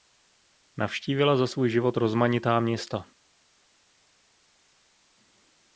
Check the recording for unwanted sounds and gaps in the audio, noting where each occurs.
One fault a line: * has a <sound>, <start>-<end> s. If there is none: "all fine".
all fine